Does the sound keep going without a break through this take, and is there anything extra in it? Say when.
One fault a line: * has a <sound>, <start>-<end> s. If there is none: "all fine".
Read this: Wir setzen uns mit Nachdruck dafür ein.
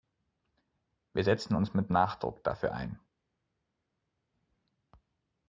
all fine